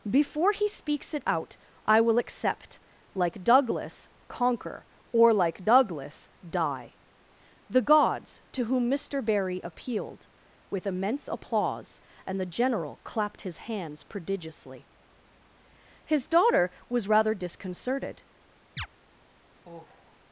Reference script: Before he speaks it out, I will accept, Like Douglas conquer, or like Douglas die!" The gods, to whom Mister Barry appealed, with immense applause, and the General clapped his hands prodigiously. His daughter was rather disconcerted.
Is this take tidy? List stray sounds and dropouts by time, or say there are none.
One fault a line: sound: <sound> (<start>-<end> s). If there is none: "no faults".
sound: chirp (18.8-18.9 s)
sound: sigh (19.6-20.2 s)